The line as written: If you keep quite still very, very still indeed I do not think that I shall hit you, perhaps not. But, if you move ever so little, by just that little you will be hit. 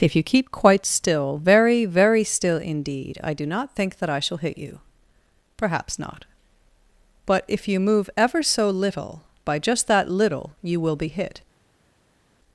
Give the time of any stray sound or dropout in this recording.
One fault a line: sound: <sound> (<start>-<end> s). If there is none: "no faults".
no faults